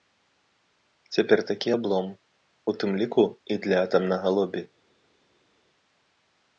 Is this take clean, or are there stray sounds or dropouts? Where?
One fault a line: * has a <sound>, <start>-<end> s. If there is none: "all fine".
all fine